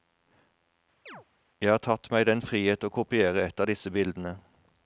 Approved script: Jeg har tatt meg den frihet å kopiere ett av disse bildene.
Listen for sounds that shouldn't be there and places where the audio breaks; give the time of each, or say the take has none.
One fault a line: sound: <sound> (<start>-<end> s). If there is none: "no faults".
sound: chirp (1.1-1.3 s)